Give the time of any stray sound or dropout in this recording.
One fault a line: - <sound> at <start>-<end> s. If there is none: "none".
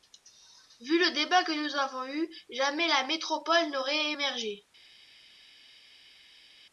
none